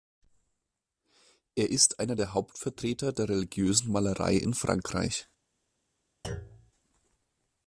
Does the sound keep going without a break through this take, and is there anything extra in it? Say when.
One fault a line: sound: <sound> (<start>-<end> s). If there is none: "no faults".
sound: thud (6.2-6.7 s)